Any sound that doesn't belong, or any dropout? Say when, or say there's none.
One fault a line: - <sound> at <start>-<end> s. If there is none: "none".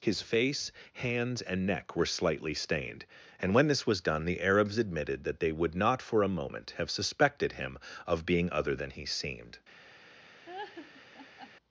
- laugh at 10.5-11.5 s